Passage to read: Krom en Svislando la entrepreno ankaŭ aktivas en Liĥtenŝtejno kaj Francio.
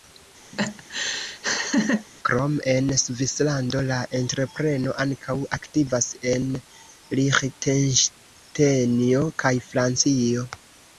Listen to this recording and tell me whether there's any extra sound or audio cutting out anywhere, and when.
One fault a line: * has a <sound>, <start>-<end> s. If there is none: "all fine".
* has a laugh, 0.5-2.1 s